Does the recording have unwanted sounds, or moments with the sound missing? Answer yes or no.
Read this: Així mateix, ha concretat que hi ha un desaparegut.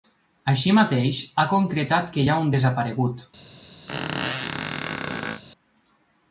yes